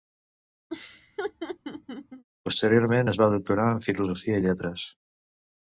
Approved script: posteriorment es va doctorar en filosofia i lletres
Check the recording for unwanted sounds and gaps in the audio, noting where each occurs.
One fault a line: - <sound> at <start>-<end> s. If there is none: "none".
- laugh at 0.7-2.2 s